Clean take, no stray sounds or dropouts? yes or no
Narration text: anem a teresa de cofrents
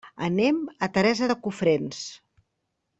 yes